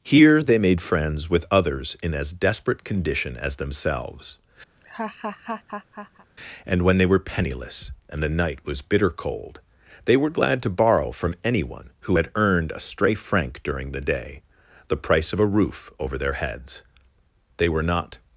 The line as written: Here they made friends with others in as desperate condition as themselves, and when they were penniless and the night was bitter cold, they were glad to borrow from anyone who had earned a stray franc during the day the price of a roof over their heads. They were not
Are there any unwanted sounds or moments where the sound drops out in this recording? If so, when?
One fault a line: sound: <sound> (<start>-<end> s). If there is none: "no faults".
sound: laugh (4.7-6.3 s)